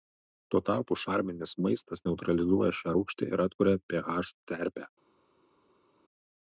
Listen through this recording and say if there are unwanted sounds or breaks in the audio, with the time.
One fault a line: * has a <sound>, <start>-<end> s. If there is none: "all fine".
all fine